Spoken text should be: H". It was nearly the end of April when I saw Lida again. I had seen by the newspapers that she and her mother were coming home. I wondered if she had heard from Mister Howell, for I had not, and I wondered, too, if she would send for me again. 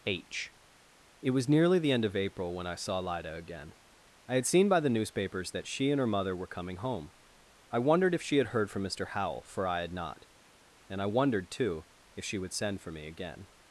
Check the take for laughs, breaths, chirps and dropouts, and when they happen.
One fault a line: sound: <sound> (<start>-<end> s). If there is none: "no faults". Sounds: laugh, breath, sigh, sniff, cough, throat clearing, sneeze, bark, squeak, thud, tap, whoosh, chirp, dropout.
no faults